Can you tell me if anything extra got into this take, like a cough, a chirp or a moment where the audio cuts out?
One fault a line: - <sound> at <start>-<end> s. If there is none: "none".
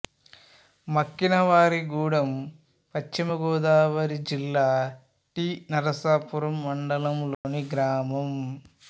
- dropout at 7.3-7.4 s